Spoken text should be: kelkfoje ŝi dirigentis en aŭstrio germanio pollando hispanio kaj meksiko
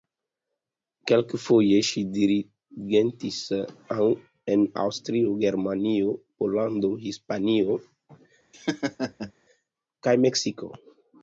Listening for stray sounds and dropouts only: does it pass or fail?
fail